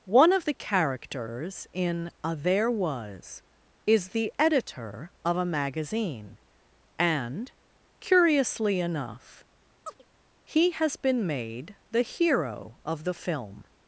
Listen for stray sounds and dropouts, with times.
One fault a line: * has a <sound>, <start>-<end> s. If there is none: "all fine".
* has a chirp, 9.8-10.0 s